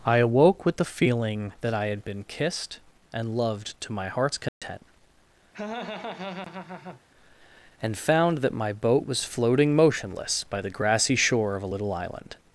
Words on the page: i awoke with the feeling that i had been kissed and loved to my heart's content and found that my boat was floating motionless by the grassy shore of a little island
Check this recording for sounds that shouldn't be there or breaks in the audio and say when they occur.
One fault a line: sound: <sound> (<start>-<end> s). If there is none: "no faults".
sound: dropout (4.5-4.6 s)
sound: laugh (5.5-7.0 s)